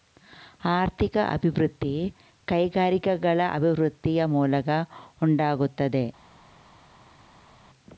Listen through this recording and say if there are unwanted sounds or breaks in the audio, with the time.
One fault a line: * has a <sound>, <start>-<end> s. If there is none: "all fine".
all fine